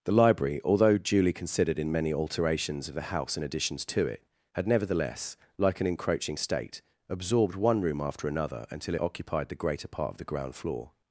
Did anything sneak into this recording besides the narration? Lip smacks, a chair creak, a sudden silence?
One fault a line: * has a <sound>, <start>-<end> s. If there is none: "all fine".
all fine